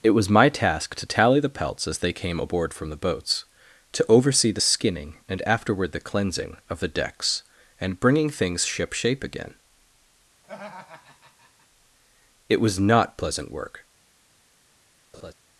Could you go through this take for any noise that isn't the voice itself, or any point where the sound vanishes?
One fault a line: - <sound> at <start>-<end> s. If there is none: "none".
- laugh at 10.4-11.7 s
- laugh at 15.1-15.3 s